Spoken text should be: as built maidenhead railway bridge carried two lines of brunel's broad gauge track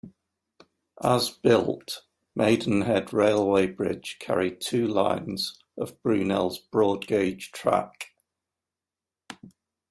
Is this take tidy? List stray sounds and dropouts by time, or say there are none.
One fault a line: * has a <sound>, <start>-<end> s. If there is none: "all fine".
all fine